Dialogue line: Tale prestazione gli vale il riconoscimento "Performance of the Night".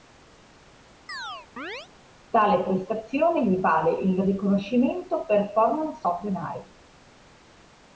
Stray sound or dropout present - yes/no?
yes